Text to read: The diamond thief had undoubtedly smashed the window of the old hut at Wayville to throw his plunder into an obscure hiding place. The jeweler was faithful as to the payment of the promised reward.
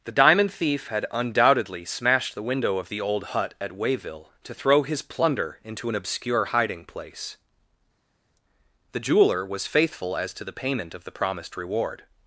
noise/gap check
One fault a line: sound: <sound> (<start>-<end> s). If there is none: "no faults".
no faults